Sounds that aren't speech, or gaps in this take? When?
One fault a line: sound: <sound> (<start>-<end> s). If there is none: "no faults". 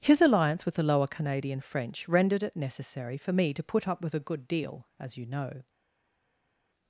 no faults